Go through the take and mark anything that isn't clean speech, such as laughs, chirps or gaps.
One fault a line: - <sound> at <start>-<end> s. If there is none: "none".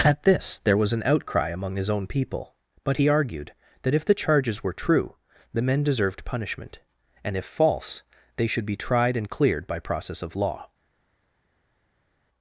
none